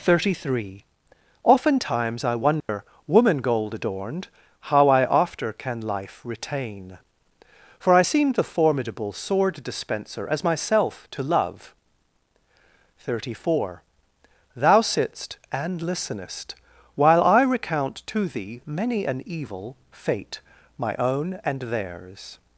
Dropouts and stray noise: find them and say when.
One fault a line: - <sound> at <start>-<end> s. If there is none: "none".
- dropout at 2.6-2.7 s